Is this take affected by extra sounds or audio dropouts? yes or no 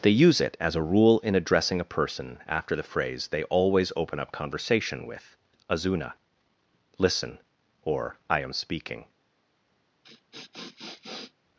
yes